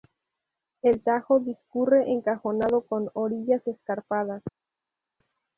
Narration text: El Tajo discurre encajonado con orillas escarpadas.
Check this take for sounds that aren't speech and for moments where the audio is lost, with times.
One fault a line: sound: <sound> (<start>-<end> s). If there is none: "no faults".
no faults